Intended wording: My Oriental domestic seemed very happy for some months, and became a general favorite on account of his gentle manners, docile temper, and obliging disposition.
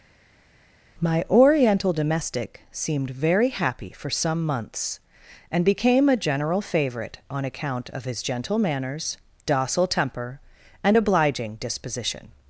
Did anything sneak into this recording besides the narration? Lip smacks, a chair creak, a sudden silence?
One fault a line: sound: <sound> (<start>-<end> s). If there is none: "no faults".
no faults